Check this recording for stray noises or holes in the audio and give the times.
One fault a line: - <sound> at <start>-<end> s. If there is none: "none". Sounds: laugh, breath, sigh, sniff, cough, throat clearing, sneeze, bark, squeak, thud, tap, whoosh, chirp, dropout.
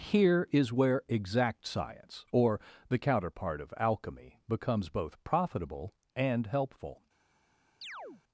- chirp at 7.8-8.2 s